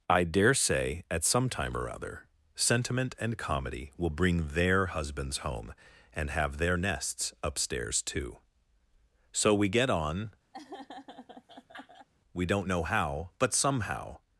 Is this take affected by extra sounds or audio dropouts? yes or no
yes